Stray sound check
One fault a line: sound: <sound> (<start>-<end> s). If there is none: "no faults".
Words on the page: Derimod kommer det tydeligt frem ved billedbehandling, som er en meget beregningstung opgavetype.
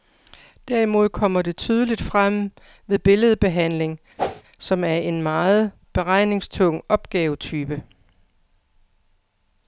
sound: whoosh (4.2-4.4 s)